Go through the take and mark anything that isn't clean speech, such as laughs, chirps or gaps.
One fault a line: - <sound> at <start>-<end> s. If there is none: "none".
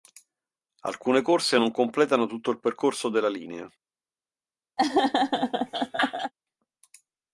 - laugh at 4.8-6.3 s